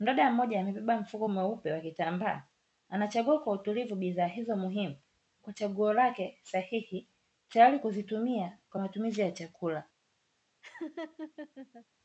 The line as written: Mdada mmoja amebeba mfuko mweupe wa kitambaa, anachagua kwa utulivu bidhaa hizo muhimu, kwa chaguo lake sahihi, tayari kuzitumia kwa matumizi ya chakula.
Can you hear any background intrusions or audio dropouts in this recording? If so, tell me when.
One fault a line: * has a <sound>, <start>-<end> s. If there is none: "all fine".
* has a laugh, 10.6-11.9 s